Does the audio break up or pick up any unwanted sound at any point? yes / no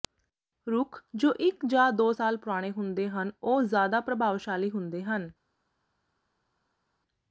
no